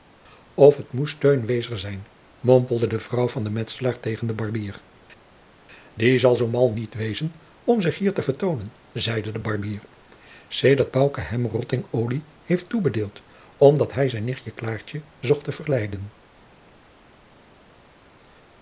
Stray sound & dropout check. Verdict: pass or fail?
pass